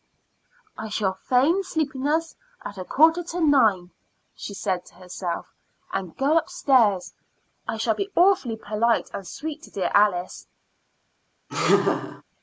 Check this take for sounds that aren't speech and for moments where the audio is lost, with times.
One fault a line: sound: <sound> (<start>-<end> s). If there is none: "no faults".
sound: laugh (11.5-12.2 s)